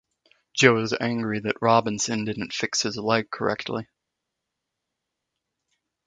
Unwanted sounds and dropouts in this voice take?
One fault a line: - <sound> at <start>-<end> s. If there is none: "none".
none